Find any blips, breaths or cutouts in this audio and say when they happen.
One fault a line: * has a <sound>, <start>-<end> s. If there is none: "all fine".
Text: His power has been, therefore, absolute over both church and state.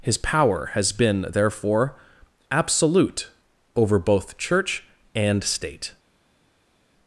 all fine